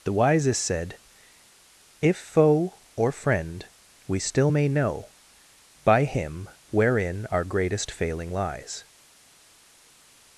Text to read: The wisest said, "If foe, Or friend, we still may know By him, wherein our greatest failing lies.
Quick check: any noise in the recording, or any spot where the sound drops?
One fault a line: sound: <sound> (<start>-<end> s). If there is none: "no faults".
no faults